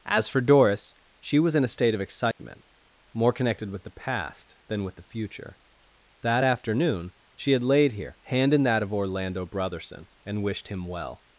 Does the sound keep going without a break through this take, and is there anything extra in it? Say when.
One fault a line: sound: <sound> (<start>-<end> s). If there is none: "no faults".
sound: dropout (2.3-2.4 s)